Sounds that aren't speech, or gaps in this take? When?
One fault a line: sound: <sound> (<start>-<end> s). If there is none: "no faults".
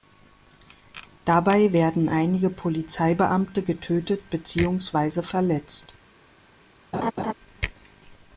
sound: laugh (6.9-7.3 s)